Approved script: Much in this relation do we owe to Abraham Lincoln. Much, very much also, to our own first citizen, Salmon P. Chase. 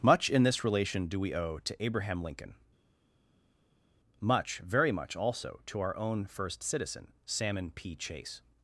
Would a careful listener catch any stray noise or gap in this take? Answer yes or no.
no